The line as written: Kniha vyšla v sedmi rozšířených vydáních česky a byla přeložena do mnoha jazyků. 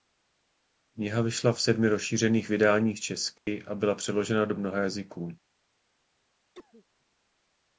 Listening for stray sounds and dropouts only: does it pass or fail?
fail